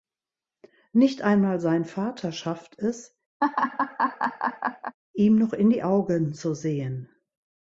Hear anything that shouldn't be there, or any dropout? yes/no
yes